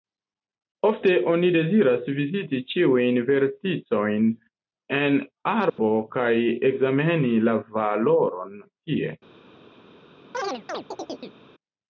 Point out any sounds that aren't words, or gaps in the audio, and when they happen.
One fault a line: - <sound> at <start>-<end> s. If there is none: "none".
- dropout at 5.7-5.8 s
- chirp at 10.3-11.4 s